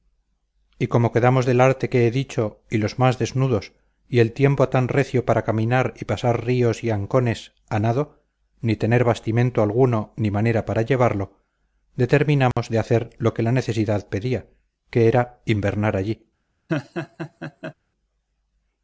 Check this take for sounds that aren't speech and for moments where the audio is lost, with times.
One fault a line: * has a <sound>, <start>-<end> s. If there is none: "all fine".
* has a dropout, 12.5-12.6 s
* has a laugh, 16.7-17.7 s